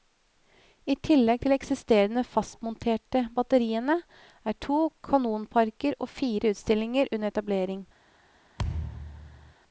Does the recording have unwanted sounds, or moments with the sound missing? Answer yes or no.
yes